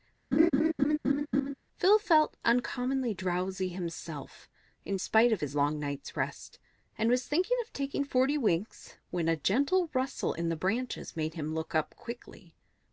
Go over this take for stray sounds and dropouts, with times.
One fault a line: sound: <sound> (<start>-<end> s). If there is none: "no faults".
sound: laugh (0.3-1.5 s)